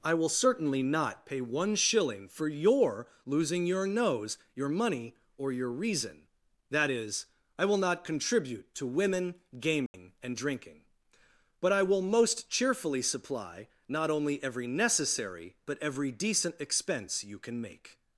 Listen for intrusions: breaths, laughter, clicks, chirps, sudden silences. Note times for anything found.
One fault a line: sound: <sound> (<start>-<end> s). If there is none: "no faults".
sound: dropout (9.9-9.9 s)